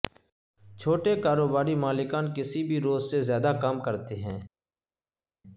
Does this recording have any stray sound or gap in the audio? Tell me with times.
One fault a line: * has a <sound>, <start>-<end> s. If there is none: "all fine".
all fine